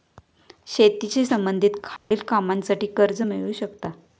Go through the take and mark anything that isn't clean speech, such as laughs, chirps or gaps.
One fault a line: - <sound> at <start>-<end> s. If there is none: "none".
- dropout at 2.0-2.1 s